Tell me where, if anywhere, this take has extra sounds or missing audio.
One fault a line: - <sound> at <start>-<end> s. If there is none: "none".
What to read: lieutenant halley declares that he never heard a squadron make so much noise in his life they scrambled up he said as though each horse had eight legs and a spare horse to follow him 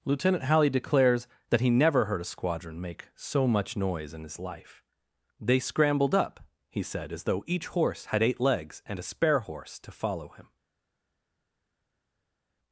none